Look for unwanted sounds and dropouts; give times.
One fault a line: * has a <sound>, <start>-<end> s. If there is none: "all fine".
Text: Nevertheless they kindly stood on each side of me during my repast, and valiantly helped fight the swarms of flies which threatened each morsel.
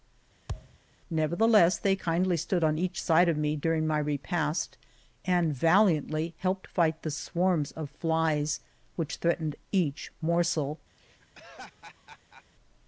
* has a thud, 0.5-0.8 s
* has a laugh, 11.0-12.4 s